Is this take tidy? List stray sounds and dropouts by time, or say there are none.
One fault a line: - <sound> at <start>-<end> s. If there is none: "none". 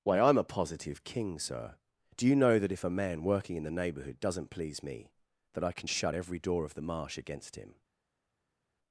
none